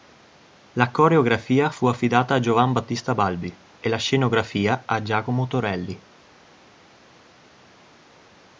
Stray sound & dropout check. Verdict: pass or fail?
pass